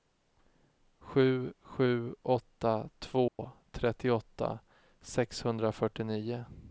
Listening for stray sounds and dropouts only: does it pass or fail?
fail